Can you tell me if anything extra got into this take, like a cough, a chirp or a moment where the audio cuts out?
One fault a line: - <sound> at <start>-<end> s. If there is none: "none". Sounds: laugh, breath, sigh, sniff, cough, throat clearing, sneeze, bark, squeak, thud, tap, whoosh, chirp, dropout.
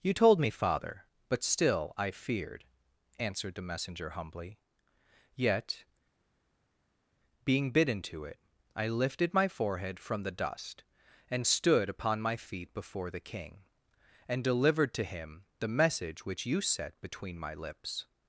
none